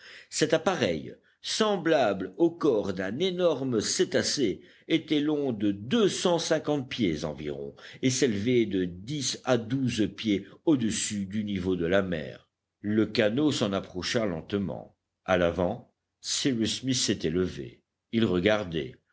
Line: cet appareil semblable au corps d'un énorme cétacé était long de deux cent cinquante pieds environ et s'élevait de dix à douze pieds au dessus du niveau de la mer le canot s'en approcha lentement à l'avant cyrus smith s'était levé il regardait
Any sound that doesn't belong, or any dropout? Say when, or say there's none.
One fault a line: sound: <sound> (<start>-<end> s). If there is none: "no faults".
no faults